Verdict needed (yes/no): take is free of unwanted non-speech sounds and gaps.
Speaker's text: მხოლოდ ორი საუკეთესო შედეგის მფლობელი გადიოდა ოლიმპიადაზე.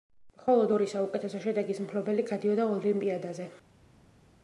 yes